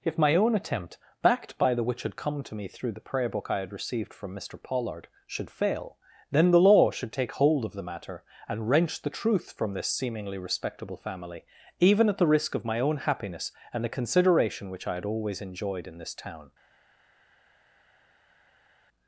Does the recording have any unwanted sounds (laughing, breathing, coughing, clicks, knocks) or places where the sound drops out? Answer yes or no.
no